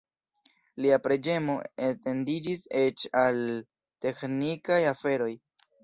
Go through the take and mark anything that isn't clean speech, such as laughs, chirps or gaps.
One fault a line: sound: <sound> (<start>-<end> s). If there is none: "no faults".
no faults